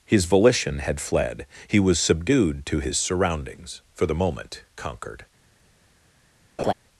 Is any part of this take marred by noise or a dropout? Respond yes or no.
yes